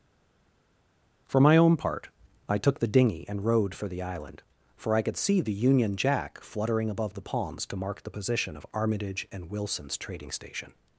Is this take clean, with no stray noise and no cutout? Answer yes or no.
yes